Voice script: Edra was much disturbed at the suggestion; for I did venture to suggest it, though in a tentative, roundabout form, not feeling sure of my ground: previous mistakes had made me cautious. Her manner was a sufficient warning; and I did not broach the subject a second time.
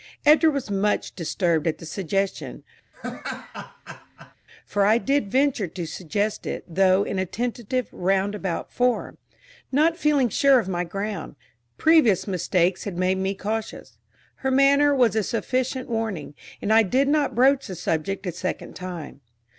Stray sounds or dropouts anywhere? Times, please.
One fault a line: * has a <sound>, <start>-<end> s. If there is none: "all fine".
* has a laugh, 2.9-4.4 s